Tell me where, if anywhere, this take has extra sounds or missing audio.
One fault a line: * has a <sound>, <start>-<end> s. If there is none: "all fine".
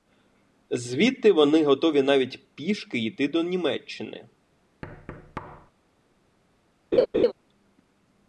* has a thud, 4.8-5.7 s
* has a laugh, 6.9-7.3 s